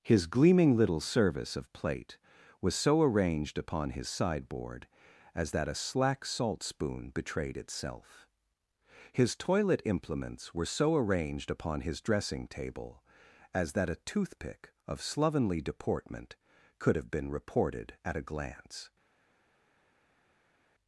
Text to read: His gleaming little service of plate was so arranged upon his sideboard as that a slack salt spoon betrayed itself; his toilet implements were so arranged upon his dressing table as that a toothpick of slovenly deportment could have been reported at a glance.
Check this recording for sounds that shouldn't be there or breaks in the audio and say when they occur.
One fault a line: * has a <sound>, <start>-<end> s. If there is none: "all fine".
all fine